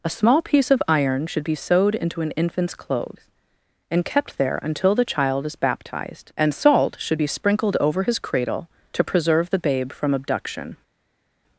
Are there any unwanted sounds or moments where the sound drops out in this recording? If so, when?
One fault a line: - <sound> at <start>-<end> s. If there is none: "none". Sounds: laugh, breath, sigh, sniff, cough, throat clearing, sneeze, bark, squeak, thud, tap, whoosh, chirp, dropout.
none